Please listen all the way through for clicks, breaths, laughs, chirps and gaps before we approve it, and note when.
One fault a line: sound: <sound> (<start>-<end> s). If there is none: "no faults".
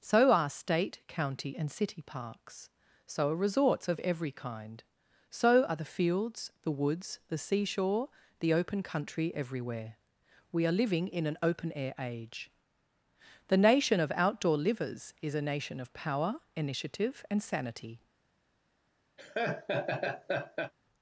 sound: laugh (19.2-20.7 s)